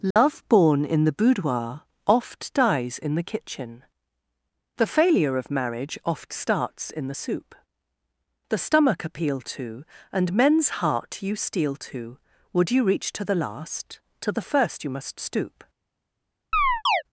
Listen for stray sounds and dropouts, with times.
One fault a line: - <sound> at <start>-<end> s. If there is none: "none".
- dropout at 0.1-0.2 s
- chirp at 16.5-17.0 s